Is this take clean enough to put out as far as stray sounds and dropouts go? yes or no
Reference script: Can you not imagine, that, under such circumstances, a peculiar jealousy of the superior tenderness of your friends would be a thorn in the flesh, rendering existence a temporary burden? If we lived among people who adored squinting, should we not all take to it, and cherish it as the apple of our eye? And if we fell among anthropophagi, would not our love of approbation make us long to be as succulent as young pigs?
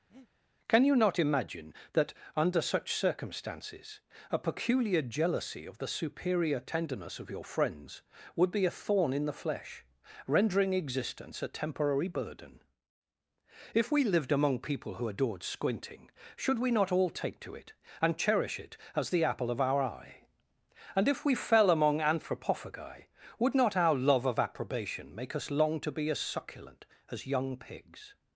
no